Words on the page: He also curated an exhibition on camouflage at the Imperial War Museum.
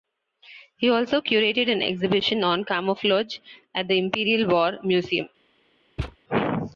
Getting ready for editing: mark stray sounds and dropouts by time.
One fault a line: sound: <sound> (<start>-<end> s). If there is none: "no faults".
sound: thud (6.0-6.2 s)